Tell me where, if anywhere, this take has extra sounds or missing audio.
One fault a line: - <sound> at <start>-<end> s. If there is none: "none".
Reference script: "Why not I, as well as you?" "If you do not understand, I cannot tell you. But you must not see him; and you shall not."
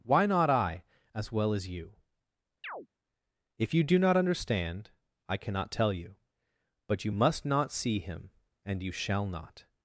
- chirp at 2.6-2.9 s